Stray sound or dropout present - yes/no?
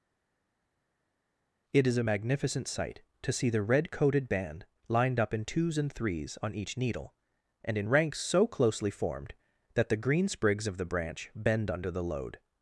no